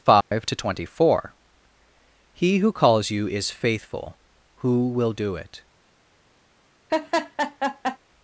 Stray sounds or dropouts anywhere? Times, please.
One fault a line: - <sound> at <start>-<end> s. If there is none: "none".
- dropout at 0.2-0.3 s
- laugh at 6.9-8.0 s